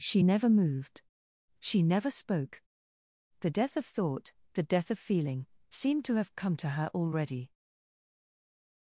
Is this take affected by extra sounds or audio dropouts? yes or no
no